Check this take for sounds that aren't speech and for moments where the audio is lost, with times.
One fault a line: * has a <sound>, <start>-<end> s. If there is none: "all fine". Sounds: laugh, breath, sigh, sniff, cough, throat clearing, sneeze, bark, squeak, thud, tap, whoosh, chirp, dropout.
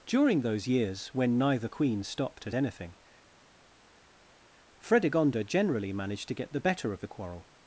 all fine